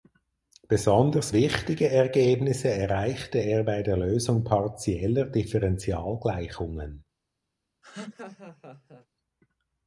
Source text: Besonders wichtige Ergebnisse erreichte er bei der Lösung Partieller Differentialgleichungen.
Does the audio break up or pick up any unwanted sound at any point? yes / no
yes